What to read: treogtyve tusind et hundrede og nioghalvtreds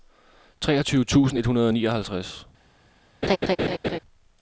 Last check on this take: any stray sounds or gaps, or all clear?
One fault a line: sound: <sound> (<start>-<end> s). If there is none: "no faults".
sound: laugh (3.2-4.0 s)